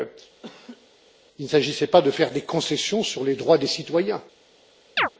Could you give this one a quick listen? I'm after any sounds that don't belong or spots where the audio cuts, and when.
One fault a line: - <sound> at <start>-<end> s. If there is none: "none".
- laugh at 0.4-0.9 s
- chirp at 5.0-5.1 s